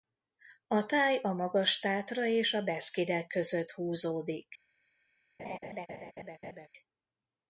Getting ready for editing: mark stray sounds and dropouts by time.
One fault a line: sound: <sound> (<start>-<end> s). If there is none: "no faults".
sound: laugh (5.4-6.7 s)